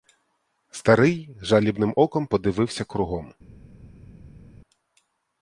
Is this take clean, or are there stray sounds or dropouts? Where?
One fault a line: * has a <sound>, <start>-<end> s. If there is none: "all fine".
all fine